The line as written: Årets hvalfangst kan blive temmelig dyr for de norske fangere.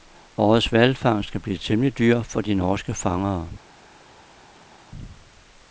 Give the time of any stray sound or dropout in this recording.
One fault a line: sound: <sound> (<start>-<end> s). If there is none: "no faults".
no faults